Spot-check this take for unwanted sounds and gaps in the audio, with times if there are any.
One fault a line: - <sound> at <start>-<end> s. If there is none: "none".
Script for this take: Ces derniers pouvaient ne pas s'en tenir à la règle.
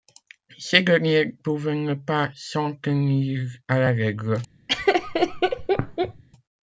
- laugh at 4.7-6.2 s